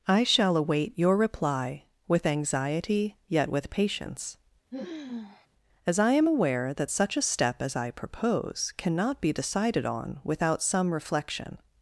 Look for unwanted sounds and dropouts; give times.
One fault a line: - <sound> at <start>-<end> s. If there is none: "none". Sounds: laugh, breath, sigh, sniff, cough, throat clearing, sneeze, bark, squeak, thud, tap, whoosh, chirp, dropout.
- sigh at 4.7-5.5 s